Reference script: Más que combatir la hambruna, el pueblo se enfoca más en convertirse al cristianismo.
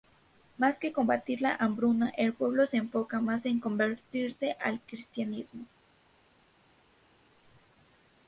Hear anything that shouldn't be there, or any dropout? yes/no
no